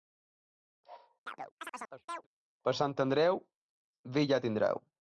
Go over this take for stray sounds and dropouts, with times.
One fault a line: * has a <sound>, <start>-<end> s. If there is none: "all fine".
* has a chirp, 1.3-2.3 s